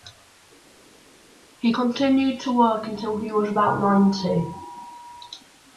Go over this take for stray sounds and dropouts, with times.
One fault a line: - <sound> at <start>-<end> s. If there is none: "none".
none